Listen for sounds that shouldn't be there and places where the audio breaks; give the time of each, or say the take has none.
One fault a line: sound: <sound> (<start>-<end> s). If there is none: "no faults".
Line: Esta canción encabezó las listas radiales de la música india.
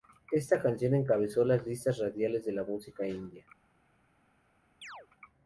sound: chirp (4.8-5.1 s)